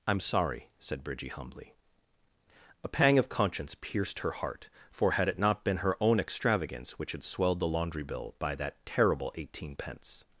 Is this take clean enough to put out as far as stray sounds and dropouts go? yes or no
yes